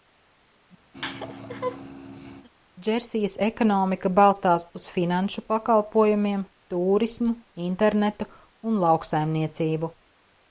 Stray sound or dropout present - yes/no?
yes